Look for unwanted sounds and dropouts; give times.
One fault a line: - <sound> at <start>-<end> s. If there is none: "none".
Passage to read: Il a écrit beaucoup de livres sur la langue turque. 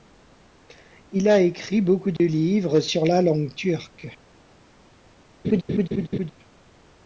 - dropout at 2.2-2.2 s
- laugh at 5.4-6.3 s